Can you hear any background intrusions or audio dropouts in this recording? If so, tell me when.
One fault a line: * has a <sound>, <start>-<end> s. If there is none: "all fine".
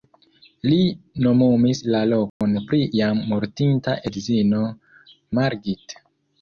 * has a dropout, 2.3-2.4 s